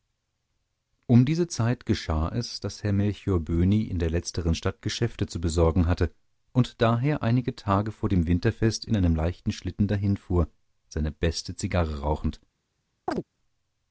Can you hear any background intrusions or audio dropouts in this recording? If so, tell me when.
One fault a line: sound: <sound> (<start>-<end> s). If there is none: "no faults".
sound: chirp (13.1-13.2 s)